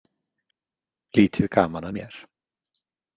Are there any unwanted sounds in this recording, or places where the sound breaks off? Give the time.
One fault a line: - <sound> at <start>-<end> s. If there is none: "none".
none